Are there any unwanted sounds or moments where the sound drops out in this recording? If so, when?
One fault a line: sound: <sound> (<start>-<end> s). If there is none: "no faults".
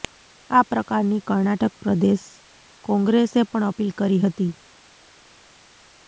no faults